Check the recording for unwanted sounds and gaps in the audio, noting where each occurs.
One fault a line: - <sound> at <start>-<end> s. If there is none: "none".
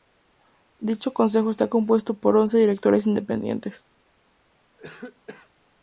- cough at 4.8-5.5 s